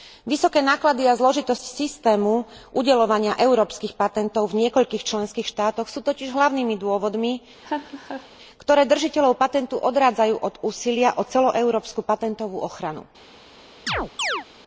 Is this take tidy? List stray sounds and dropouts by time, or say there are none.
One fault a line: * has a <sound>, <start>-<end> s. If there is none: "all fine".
* has a laugh, 7.6-8.3 s
* has a chirp, 13.9-14.5 s